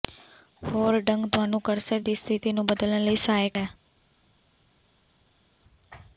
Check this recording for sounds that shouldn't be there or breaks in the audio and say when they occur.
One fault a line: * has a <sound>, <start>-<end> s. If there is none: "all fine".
all fine